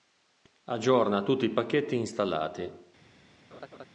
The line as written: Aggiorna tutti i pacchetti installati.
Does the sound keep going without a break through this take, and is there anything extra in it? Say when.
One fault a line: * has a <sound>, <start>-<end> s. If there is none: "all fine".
* has a laugh, 3.5-3.9 s